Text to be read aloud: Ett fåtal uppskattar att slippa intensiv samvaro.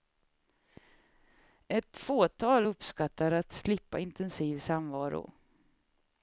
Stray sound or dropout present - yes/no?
no